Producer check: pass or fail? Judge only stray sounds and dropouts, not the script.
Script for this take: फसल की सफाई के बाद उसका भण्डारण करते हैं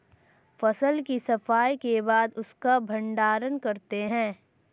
pass